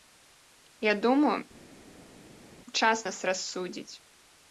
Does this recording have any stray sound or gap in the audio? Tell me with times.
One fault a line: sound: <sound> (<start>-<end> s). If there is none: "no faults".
no faults